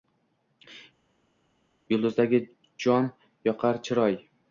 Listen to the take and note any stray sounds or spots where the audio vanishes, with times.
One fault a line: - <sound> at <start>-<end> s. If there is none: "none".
none